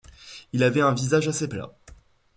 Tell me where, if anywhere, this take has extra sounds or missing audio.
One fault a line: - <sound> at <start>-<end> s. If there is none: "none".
none